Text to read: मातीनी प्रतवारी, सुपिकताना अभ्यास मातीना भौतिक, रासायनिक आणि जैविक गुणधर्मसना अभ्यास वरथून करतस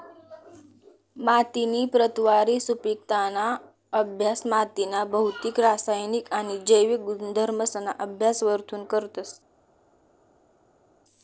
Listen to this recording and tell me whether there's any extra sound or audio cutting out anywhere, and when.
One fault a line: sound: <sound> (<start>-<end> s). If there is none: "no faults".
no faults